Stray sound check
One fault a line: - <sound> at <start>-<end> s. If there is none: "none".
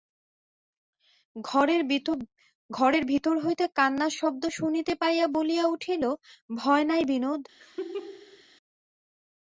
- laugh at 7.6-8.4 s